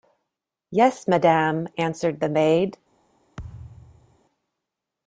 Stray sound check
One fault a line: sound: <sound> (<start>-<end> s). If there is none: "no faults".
sound: thud (3.4-4.2 s)